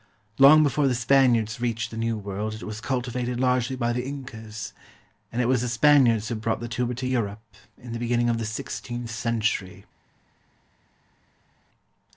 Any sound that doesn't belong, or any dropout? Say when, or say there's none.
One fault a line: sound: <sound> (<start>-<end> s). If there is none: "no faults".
no faults